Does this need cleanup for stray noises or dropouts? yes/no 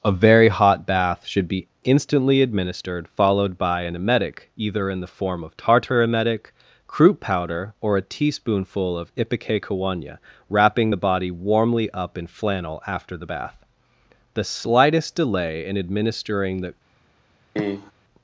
yes